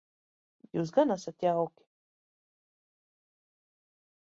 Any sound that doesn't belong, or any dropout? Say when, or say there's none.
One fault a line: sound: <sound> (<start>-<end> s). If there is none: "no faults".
no faults